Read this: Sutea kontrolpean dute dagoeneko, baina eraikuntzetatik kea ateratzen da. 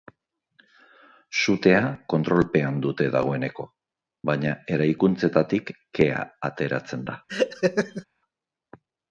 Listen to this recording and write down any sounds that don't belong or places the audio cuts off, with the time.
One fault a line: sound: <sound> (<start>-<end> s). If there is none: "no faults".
sound: laugh (7.3-8.0 s)